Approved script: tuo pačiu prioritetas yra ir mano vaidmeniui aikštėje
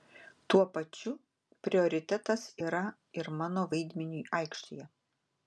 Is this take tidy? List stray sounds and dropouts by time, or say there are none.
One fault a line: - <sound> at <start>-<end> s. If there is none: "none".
none